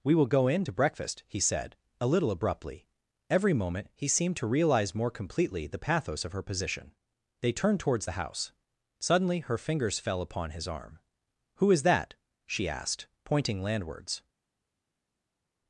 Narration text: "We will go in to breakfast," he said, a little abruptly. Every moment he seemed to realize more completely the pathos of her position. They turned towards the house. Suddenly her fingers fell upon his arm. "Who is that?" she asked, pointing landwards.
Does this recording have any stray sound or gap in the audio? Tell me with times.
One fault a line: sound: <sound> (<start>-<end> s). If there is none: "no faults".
no faults